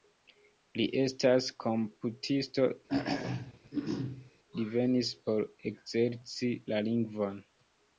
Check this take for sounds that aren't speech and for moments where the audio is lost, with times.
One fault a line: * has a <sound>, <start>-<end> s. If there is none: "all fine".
* has a throat clearing, 2.9-4.3 s